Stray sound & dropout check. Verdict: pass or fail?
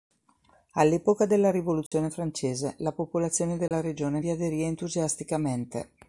fail